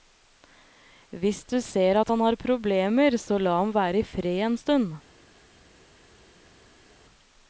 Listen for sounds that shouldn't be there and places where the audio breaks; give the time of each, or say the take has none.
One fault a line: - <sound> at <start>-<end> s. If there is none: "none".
none